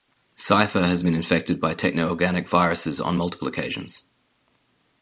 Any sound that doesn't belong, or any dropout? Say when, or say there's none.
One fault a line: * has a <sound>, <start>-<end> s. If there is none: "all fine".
all fine